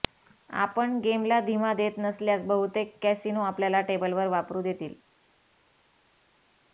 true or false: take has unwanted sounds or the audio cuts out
false